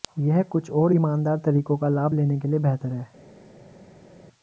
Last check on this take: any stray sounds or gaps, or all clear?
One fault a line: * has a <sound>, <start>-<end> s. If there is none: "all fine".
all fine